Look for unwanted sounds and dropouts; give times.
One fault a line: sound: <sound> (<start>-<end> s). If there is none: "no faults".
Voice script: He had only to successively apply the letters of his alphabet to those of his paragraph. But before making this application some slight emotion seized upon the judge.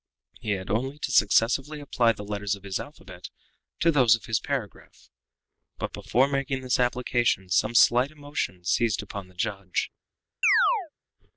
sound: chirp (10.4-10.9 s)